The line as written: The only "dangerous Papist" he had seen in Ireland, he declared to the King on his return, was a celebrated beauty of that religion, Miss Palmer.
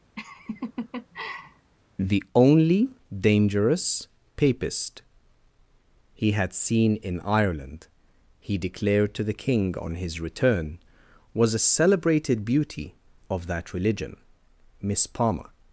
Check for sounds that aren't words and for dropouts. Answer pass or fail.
fail